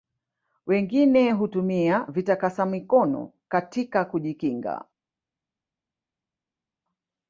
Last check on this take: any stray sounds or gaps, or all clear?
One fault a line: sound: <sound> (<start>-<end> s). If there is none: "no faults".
no faults